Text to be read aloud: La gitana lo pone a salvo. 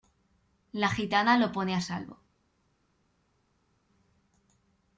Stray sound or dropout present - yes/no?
no